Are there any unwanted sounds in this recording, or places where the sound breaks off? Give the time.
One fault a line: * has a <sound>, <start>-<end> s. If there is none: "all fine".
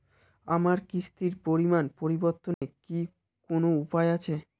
* has a dropout, 2.5-2.6 s